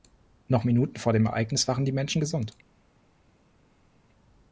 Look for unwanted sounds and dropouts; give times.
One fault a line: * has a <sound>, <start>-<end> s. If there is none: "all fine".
all fine